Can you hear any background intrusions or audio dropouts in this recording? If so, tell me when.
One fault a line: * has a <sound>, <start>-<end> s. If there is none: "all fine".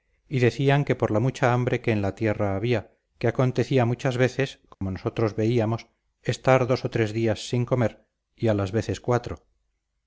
* has a dropout, 4.7-4.8 s